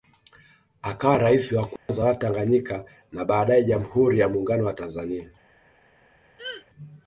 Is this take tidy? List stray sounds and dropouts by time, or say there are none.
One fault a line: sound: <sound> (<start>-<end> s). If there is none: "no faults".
sound: dropout (1.8-1.9 s)
sound: throat clearing (6.4-6.6 s)